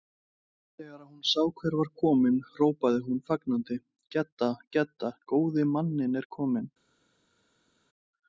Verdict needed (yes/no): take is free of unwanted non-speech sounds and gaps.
yes